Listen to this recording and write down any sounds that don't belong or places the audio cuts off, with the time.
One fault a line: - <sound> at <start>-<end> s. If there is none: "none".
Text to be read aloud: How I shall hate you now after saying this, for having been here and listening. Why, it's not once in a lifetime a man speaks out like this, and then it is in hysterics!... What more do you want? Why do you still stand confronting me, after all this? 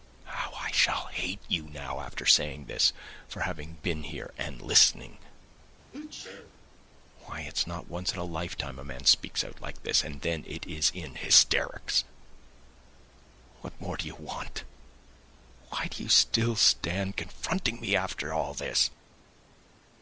- sneeze at 5.9-6.5 s